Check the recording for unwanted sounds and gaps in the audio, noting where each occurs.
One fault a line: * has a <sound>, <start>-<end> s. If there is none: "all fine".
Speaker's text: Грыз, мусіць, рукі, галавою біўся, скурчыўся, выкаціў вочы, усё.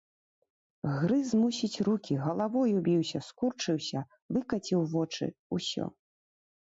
all fine